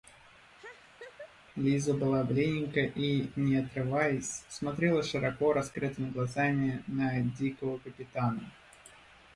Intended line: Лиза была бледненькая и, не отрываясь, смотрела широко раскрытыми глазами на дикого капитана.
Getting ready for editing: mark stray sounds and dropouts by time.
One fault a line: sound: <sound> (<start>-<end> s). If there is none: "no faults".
sound: laugh (0.6-1.4 s)